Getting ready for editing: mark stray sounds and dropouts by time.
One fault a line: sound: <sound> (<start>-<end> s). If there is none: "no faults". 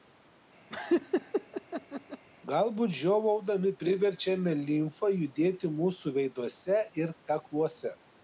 sound: laugh (0.7-2.2 s)